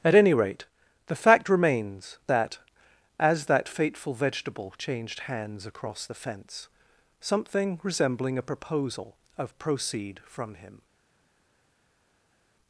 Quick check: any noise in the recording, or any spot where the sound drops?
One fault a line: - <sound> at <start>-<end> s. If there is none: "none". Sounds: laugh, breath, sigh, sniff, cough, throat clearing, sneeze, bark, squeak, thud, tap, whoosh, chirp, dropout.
none